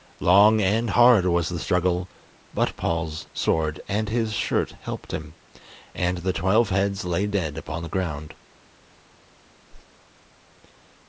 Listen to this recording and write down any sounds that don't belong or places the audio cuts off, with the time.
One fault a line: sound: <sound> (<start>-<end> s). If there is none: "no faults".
sound: whoosh (9.7-9.9 s)